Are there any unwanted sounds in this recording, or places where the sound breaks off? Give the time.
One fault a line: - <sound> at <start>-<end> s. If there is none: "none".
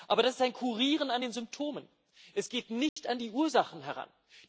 - dropout at 2.9-3.0 s